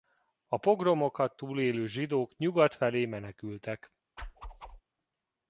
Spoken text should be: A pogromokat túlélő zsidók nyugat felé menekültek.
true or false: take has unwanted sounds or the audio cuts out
true